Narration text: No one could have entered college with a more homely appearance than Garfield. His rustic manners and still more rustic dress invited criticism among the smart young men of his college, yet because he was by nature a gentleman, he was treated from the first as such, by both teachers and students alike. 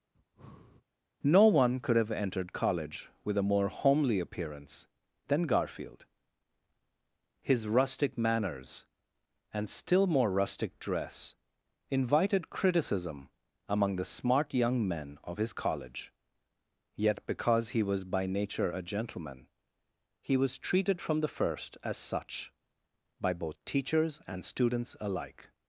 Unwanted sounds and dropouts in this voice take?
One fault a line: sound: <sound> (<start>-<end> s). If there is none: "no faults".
sound: breath (0.1-0.8 s)